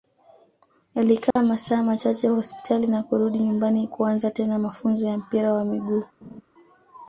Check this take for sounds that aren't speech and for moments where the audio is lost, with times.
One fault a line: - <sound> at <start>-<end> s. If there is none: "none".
- dropout at 1.3-1.4 s
- laugh at 6.2-6.4 s